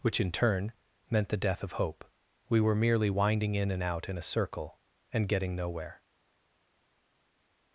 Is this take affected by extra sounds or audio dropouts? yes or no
no